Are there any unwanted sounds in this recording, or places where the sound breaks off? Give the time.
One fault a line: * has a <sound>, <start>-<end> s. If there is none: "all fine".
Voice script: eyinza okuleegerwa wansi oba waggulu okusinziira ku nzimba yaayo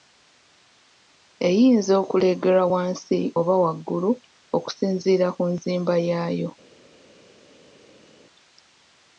all fine